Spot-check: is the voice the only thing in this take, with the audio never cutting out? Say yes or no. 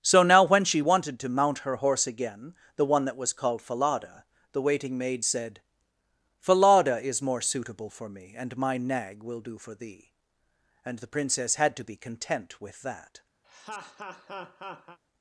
no